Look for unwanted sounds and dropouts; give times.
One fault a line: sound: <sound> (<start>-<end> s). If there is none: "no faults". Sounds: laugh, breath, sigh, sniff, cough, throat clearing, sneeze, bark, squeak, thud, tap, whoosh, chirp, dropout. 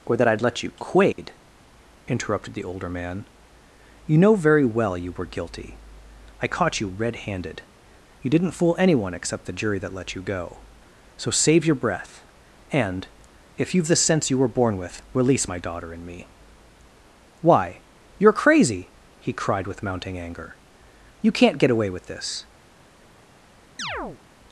sound: dropout (1.1-1.2 s)
sound: chirp (23.8-24.2 s)